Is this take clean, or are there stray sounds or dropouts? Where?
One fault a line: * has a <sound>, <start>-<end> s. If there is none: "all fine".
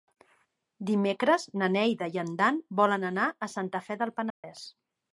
* has a dropout, 4.3-4.4 s